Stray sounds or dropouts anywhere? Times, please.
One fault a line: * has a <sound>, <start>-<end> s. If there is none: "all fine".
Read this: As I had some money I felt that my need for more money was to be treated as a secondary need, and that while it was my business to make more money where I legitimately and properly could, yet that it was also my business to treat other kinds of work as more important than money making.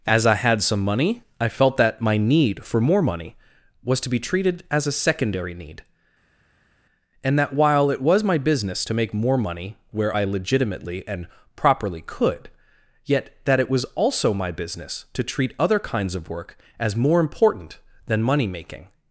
all fine